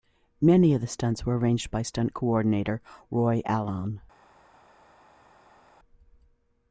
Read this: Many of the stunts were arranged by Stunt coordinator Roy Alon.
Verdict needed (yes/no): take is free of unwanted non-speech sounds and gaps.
yes